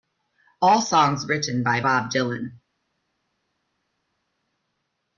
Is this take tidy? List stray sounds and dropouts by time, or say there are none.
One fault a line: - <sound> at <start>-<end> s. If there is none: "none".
none